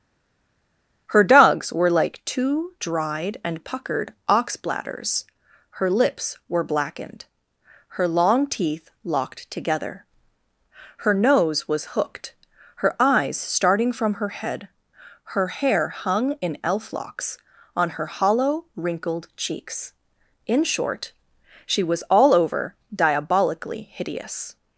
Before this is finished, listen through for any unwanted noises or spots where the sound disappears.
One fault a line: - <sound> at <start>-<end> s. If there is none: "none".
none